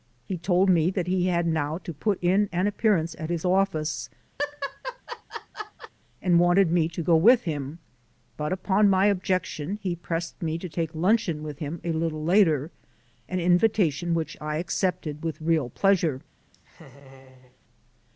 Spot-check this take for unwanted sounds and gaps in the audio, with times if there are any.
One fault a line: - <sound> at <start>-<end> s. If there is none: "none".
- laugh at 4.4-5.9 s
- laugh at 16.5-17.6 s